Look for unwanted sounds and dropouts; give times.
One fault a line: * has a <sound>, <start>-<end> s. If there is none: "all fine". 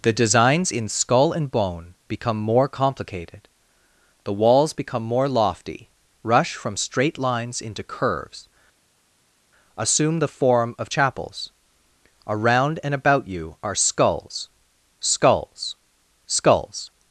all fine